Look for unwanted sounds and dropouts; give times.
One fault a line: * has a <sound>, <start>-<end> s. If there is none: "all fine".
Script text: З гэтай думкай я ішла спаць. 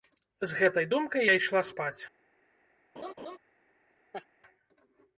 * has a laugh, 3.0-3.4 s
* has a laugh, 4.1-4.3 s